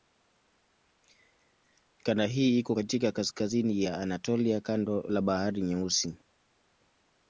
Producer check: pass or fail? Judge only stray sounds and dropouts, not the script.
pass